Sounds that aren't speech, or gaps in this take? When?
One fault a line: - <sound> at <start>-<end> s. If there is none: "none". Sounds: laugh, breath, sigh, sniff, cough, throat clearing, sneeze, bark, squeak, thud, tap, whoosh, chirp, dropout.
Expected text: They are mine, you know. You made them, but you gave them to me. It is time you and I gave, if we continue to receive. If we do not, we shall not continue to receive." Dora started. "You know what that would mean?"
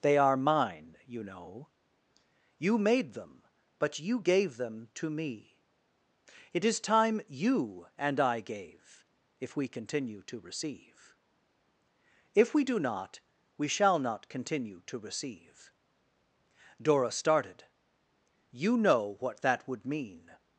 none